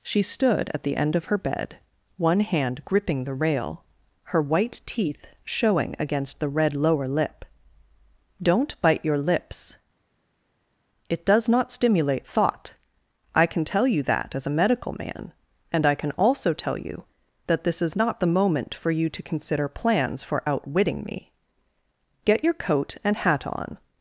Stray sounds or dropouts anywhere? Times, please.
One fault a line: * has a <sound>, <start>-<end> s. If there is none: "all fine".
all fine